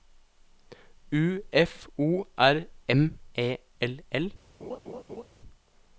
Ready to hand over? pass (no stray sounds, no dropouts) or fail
fail